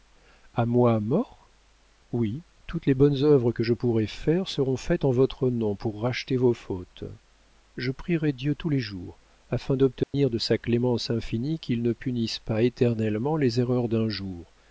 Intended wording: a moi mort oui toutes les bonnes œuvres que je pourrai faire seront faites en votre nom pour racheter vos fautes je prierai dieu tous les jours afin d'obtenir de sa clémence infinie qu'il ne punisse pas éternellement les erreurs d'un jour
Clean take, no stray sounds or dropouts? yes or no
no